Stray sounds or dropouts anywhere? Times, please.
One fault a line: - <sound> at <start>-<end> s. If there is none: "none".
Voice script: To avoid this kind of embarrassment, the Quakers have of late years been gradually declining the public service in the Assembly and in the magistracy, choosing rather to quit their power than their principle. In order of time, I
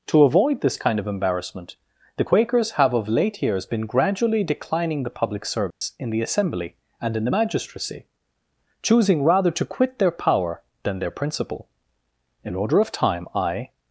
- dropout at 5.7-5.8 s